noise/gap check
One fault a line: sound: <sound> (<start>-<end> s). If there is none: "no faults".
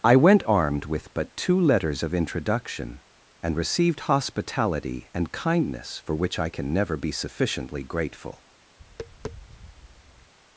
sound: tap (8.8-10.3 s)